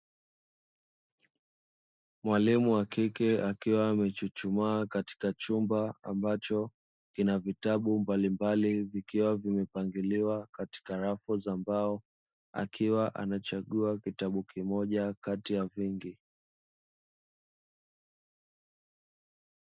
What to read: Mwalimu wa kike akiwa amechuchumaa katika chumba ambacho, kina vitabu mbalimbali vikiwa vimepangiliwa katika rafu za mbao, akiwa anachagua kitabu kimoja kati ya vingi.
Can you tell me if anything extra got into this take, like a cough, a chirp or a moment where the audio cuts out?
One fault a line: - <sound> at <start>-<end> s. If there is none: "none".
none